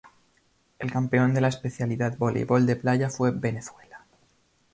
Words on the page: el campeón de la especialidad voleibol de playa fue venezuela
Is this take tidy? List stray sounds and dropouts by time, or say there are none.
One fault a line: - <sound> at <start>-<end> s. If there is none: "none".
none